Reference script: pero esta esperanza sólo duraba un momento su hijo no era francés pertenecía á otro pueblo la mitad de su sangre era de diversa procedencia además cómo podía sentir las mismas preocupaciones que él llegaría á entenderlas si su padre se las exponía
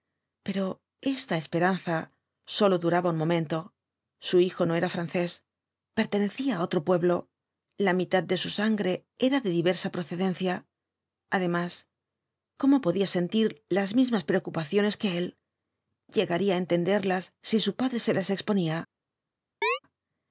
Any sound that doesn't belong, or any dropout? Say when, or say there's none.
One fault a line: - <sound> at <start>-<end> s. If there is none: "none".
- chirp at 19.6-19.8 s